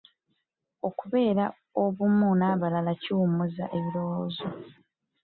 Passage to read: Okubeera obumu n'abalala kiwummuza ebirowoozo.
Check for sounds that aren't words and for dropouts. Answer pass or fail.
pass